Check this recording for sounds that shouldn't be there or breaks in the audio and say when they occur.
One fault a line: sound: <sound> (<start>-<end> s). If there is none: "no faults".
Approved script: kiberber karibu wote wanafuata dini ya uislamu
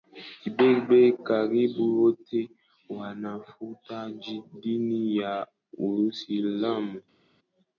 no faults